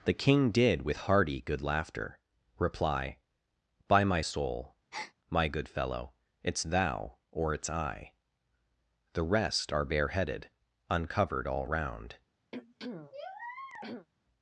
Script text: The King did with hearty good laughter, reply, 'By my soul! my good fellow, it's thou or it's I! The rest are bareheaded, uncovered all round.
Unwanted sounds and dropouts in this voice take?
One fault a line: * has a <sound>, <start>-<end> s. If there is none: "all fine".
* has a breath, 4.9-5.1 s
* has a throat clearing, 12.5-14.1 s